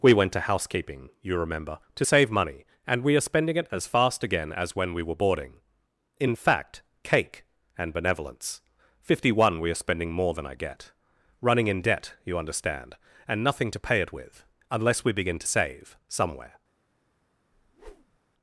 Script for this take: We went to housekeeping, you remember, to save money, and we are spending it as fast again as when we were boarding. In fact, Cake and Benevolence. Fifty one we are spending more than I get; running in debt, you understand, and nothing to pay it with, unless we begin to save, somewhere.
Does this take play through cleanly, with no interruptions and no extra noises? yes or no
no